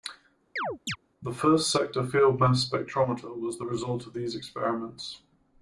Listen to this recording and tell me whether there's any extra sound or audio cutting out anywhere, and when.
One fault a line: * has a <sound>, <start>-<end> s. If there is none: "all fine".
* has a chirp, 0.6-1.0 s